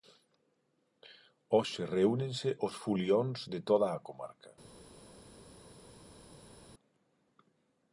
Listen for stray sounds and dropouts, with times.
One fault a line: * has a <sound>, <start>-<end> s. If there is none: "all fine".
all fine